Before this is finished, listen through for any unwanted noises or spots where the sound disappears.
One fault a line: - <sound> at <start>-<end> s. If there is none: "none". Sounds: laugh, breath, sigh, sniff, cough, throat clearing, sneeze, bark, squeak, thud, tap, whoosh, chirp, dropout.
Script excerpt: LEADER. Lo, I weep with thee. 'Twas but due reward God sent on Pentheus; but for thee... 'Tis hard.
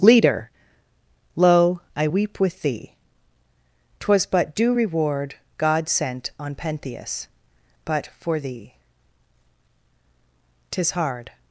none